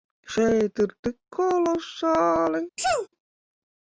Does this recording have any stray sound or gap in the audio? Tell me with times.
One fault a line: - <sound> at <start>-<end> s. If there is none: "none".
- sneeze at 2.8-3.1 s